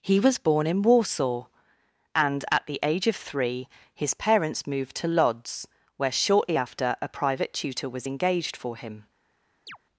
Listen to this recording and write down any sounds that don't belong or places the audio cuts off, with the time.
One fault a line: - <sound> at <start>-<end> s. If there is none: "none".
- chirp at 9.7-9.8 s